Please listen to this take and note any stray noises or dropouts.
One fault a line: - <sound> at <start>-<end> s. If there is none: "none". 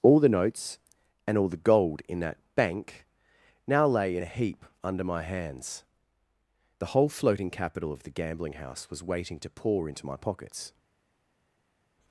none